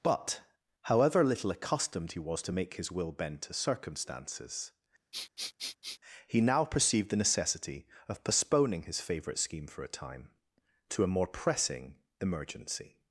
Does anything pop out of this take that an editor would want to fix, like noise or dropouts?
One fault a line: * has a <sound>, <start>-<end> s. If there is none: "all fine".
* has a sniff, 5.1-6.0 s